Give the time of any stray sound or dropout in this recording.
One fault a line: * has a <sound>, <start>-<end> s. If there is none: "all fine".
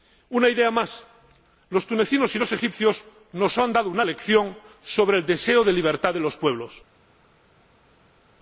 all fine